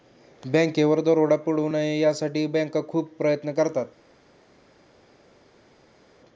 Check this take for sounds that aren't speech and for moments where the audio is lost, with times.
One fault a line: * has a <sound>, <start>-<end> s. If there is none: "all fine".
all fine